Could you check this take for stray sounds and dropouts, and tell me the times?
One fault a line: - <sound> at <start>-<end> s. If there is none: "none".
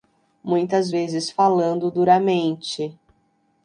none